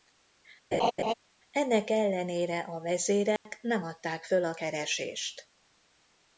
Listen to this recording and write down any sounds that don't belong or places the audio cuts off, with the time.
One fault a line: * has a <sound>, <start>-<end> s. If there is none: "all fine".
* has a laugh, 0.7-1.1 s
* has a dropout, 3.4-3.5 s